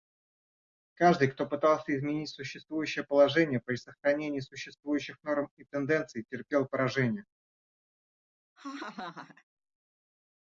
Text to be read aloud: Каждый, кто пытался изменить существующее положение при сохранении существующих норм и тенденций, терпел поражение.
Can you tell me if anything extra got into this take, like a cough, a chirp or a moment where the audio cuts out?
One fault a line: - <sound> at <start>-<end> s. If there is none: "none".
- laugh at 8.6-9.4 s